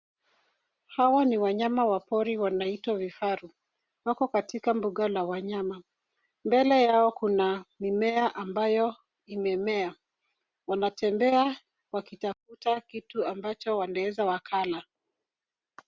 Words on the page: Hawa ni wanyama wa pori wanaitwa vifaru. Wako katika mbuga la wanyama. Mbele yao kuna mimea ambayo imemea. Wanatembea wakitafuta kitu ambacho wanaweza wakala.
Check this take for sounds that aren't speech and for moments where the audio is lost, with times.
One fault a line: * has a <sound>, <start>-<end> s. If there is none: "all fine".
all fine